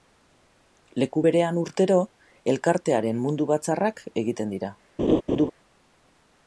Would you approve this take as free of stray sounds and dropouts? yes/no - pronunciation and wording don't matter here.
no